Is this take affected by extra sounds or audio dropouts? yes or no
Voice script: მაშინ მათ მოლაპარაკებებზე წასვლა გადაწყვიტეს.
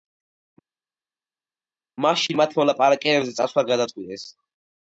no